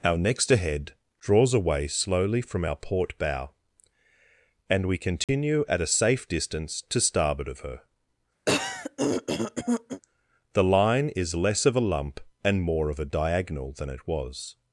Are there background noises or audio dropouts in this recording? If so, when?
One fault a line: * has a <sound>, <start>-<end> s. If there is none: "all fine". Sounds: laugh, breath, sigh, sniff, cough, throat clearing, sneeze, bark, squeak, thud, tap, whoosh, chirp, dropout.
* has a dropout, 5.2-5.3 s
* has a throat clearing, 8.5-10.0 s